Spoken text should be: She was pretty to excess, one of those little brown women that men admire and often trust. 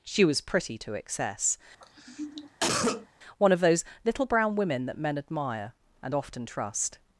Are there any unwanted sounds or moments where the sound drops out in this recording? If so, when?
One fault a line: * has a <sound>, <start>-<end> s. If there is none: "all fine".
* has a cough, 1.8-3.1 s